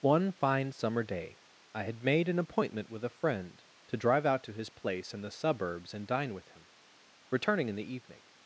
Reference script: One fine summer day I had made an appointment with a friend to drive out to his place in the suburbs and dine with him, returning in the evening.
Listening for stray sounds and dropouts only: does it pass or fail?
pass